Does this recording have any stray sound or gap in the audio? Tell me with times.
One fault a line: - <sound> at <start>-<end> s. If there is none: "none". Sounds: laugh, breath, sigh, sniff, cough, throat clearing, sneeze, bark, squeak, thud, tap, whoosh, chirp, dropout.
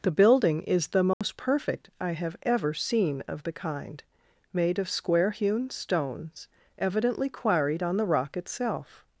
- dropout at 1.1-1.2 s